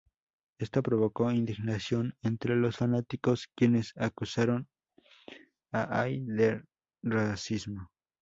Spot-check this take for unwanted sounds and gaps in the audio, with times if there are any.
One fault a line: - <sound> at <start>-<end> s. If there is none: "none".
none